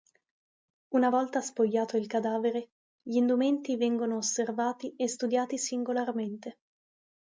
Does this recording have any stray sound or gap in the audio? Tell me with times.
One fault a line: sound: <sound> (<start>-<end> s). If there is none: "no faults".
no faults